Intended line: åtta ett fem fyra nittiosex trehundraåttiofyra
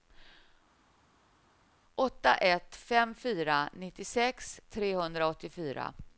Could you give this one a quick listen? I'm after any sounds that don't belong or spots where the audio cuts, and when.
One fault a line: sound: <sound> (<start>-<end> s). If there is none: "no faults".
no faults